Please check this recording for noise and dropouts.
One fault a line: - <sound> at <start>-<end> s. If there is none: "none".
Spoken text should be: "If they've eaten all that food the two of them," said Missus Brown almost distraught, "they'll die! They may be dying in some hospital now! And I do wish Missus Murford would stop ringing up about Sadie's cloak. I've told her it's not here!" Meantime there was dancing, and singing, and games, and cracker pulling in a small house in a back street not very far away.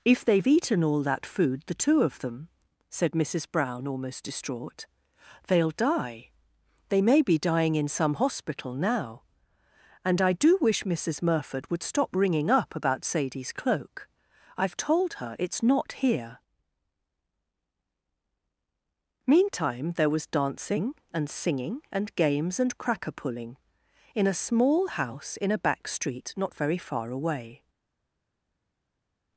none